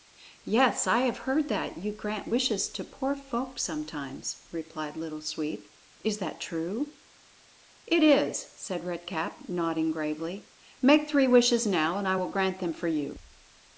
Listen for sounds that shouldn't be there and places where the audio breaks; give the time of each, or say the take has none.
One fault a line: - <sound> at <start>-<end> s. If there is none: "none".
none